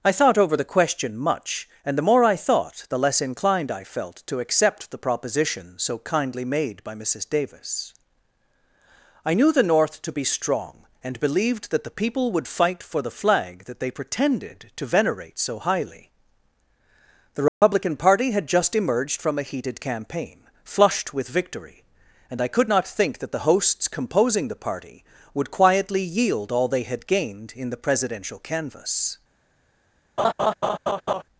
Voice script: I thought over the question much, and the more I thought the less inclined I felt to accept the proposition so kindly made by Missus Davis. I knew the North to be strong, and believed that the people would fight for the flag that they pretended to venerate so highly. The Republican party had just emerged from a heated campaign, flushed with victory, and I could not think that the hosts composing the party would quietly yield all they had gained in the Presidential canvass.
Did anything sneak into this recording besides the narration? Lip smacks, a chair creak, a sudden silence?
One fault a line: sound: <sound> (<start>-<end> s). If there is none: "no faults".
sound: dropout (17.5-17.6 s)
sound: laugh (30.2-31.2 s)